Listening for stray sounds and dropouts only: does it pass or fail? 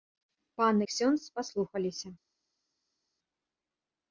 pass